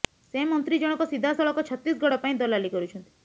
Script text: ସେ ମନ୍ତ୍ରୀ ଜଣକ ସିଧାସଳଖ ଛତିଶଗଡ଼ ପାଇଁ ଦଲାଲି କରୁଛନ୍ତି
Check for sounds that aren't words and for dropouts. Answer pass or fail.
pass